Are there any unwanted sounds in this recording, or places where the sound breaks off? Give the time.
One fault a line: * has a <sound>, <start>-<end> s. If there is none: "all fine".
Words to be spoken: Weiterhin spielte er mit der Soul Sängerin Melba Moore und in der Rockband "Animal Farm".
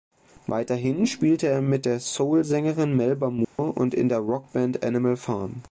* has a dropout, 3.4-3.6 s